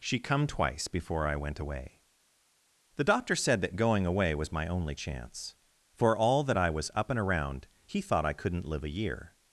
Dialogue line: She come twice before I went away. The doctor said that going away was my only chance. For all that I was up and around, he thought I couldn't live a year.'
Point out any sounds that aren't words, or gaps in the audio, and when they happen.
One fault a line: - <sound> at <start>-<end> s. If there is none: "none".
none